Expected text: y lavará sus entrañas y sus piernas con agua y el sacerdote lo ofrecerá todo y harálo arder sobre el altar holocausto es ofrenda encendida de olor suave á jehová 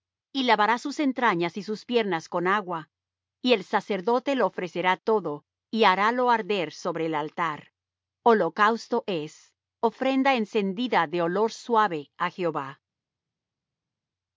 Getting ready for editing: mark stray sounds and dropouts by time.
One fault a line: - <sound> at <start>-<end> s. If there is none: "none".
none